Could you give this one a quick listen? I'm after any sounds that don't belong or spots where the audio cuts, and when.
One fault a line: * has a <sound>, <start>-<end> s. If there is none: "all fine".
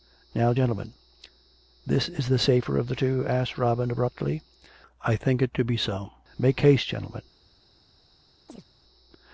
* has a chirp, 8.5-8.7 s